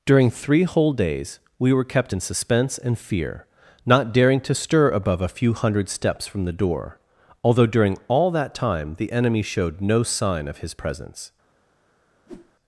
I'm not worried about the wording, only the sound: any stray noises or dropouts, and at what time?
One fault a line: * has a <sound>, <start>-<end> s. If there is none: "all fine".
* has a whoosh, 12.3-12.5 s